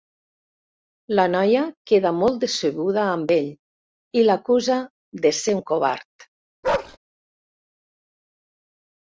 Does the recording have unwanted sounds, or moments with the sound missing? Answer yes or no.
yes